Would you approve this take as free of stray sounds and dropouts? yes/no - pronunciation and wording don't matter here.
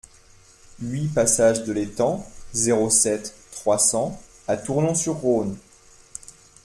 yes